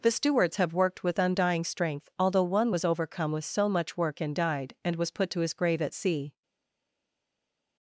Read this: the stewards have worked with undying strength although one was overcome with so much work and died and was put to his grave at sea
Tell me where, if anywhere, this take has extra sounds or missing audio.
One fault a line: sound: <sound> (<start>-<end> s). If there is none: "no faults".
no faults